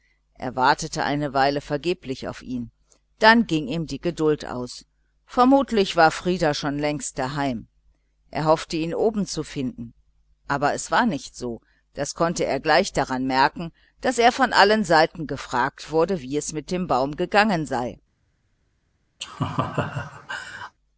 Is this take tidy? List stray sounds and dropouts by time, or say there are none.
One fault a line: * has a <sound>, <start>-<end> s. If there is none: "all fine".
* has a laugh, 19.2-20.7 s